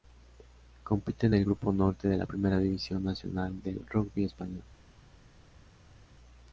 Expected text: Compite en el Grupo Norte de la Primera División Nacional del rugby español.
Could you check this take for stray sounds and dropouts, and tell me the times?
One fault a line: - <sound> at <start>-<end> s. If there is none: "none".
none